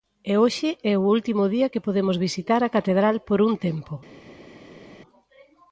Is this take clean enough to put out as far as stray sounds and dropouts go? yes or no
yes